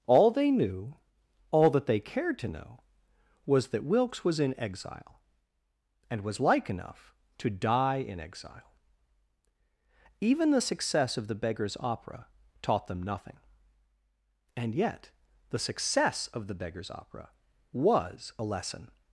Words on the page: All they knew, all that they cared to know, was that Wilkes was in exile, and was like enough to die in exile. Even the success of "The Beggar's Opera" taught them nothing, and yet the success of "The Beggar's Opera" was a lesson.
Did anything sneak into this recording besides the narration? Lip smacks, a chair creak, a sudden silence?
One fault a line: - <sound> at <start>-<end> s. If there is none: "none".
none